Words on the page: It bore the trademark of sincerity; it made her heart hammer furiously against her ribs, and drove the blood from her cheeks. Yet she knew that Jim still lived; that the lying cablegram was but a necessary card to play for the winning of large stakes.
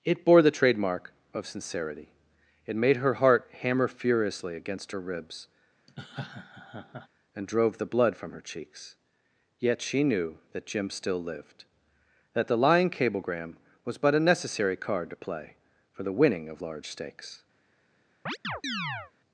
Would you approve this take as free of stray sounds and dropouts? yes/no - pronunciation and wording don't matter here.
no